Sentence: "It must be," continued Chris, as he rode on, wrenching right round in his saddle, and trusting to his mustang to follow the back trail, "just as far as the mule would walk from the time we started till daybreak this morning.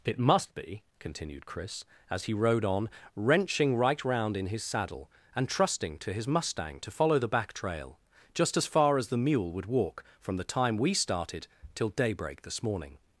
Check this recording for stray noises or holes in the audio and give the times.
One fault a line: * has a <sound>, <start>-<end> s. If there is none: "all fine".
all fine